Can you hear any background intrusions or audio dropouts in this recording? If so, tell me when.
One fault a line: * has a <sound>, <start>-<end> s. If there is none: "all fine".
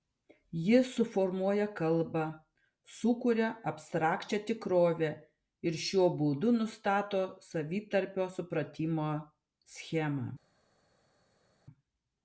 all fine